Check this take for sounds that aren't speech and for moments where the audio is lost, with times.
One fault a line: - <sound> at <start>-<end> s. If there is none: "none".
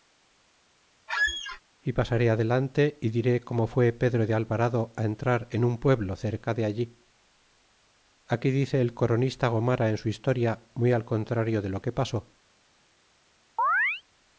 - squeak at 1.1-1.6 s
- chirp at 13.6-14.0 s